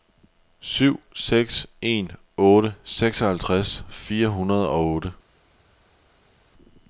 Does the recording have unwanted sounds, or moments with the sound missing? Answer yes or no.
no